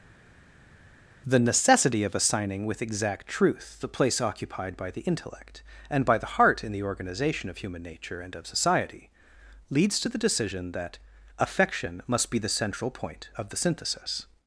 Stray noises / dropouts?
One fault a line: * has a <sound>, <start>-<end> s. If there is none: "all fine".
all fine